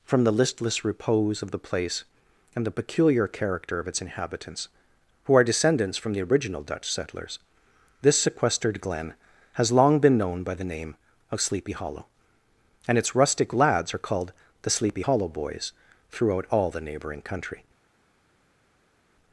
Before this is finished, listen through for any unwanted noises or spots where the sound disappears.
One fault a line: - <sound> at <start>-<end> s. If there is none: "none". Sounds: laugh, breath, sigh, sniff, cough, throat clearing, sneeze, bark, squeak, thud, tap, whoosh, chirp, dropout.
none